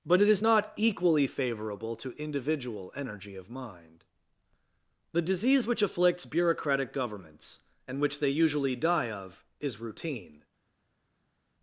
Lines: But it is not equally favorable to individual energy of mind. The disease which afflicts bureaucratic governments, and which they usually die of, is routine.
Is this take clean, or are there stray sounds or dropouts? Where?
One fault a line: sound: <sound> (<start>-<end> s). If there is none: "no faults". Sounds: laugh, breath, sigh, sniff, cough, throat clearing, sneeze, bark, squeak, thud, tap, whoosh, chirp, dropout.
no faults